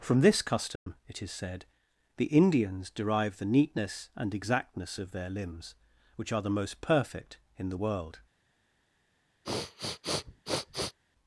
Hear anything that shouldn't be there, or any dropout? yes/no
yes